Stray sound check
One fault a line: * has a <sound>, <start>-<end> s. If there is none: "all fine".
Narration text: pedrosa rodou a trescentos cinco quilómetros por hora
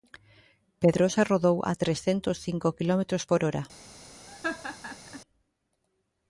* has a laugh, 4.3-5.2 s